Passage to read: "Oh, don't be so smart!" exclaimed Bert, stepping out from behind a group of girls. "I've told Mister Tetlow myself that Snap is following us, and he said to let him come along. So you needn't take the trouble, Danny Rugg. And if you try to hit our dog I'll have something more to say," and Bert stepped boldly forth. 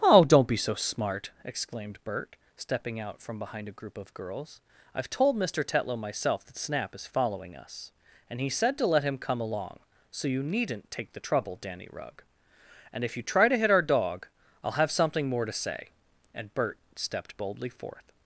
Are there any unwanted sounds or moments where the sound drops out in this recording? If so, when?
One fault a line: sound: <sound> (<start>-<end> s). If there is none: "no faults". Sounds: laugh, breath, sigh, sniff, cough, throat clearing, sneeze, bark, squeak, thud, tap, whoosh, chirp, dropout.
no faults